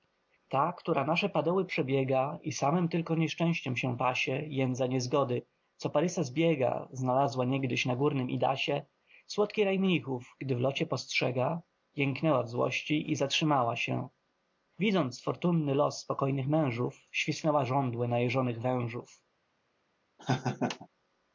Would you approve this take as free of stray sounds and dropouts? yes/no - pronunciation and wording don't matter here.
no